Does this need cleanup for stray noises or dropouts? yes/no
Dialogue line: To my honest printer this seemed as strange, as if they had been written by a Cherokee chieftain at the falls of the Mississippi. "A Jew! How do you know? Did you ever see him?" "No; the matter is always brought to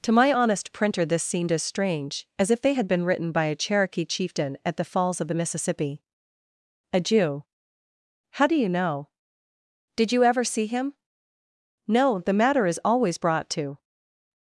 no